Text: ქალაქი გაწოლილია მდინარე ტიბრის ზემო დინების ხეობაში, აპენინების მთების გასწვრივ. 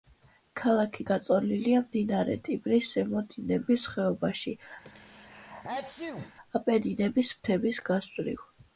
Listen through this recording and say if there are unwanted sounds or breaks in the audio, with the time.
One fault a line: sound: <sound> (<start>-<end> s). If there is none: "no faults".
sound: sneeze (4.8-6.3 s)